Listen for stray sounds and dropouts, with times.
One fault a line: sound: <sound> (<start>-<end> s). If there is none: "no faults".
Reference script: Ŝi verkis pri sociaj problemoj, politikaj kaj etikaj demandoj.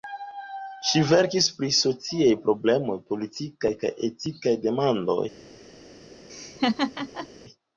sound: laugh (6.3-7.3 s)